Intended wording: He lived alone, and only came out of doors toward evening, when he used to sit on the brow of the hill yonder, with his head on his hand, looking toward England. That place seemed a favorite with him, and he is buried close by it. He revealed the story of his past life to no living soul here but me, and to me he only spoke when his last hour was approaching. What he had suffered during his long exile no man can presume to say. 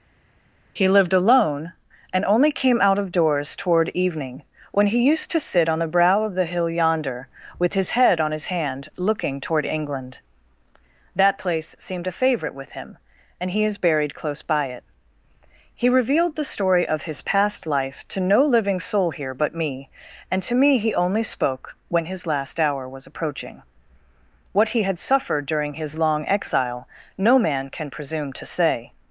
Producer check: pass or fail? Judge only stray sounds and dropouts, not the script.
pass